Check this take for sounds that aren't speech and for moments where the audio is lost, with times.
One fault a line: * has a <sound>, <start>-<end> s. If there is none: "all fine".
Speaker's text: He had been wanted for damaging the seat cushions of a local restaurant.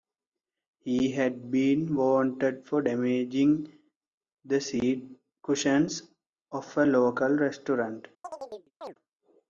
* has a chirp, 8.2-8.9 s